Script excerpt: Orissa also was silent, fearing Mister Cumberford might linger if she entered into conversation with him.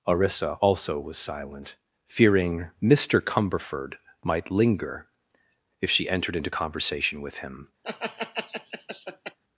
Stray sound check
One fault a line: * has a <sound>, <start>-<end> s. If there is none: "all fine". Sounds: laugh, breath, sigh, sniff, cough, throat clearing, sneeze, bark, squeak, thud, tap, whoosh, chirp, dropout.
* has a laugh, 7.8-9.4 s